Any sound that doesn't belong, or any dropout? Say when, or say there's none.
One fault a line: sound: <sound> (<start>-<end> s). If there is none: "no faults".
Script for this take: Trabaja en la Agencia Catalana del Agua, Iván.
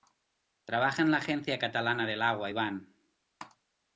no faults